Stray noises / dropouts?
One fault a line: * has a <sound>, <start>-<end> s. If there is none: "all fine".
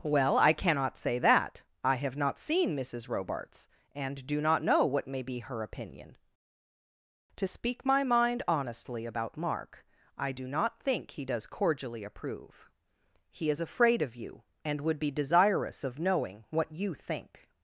all fine